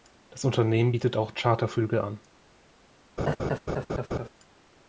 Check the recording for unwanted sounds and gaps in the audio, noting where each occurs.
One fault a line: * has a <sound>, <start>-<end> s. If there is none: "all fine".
* has a laugh, 3.2-4.3 s